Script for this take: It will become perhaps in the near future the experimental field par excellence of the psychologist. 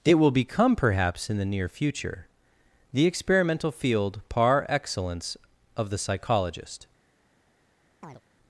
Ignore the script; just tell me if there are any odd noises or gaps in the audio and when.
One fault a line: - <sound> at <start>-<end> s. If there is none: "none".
- chirp at 8.0-8.2 s